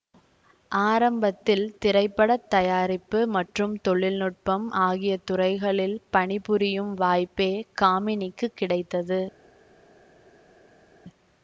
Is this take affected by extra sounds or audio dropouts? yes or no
no